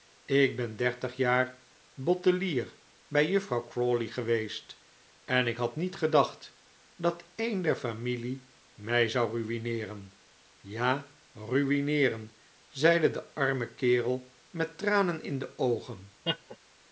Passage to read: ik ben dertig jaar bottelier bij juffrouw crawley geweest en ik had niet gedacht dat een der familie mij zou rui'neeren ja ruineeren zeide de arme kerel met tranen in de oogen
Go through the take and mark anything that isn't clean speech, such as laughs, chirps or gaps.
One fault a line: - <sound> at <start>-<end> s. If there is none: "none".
- laugh at 16.2-16.6 s